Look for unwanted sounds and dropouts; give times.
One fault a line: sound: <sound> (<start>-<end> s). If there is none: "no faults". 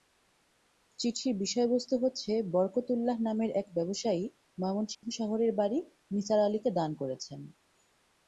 sound: dropout (4.9-5.0 s)